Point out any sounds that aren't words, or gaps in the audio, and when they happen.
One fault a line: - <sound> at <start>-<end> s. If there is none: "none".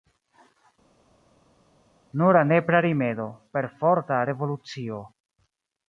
none